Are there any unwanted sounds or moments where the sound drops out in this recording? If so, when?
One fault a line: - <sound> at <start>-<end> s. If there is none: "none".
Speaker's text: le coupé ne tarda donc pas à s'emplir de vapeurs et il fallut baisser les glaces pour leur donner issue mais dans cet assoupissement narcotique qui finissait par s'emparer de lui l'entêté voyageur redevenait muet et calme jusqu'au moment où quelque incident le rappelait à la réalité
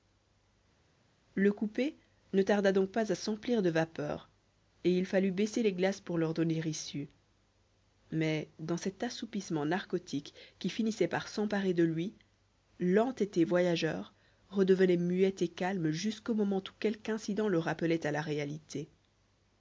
none